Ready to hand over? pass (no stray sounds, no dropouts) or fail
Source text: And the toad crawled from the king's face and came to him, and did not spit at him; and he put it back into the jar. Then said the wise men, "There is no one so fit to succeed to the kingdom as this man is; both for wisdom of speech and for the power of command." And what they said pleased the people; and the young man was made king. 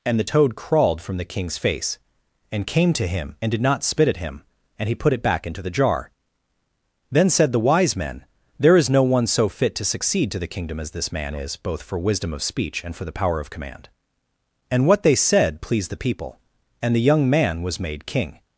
pass